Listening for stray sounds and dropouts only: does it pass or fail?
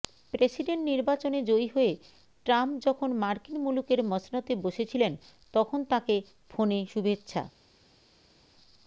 pass